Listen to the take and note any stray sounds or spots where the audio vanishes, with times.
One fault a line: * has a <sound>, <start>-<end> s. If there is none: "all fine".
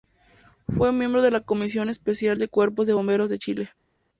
all fine